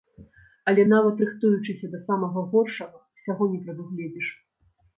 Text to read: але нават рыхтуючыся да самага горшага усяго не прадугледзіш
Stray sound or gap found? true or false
false